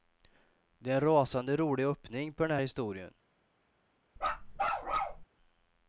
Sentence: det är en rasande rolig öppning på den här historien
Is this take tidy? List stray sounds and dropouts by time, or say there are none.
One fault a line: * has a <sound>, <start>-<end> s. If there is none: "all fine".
* has a bark, 4.2-5.2 s